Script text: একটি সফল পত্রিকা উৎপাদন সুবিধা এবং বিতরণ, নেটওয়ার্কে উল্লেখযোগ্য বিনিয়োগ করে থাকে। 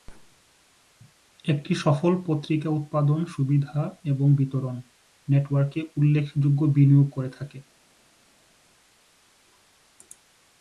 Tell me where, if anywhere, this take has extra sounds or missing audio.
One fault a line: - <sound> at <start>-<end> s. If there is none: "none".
none